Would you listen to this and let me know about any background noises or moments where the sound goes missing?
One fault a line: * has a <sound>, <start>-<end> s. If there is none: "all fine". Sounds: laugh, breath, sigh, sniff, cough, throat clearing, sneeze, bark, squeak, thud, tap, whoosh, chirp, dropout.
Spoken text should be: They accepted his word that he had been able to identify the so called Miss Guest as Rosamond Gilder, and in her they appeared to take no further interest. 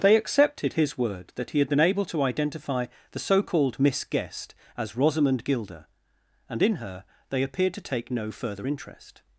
all fine